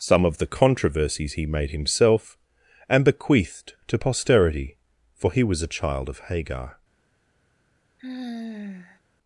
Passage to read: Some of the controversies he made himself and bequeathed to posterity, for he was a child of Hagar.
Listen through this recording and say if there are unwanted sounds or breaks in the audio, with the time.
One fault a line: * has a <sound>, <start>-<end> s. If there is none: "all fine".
* has a sigh, 8.0-9.0 s